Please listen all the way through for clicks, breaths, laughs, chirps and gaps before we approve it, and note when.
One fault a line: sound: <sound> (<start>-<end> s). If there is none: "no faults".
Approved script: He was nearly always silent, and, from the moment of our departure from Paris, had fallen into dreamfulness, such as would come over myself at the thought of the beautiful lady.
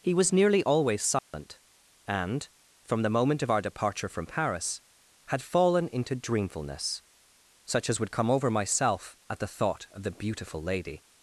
sound: dropout (1.2-1.3 s)